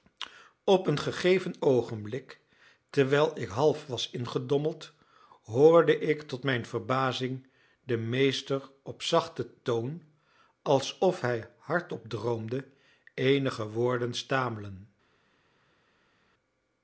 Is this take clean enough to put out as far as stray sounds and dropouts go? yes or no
yes